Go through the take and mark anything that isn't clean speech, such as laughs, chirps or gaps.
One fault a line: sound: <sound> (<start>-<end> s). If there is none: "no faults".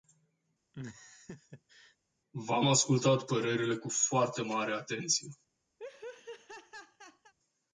sound: laugh (0.7-2.0 s)
sound: laugh (5.8-7.3 s)